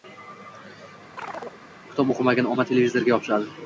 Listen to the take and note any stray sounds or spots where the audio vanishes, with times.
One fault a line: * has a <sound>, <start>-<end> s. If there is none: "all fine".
* has a chirp, 1.2-1.6 s